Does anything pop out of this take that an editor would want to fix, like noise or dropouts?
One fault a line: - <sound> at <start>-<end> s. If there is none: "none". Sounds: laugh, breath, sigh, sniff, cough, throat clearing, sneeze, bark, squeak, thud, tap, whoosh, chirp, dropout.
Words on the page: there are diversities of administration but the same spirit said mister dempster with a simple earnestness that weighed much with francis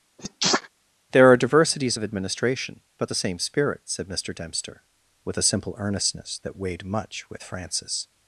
- sneeze at 0.2-0.7 s